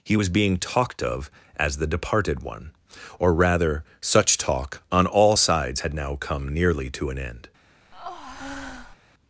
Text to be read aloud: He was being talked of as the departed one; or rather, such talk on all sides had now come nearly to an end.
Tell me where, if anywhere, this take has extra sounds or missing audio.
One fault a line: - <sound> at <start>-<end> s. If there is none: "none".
- breath at 7.9-9.0 s